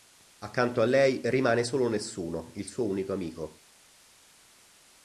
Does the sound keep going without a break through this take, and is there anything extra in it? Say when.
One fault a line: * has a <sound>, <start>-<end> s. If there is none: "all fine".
all fine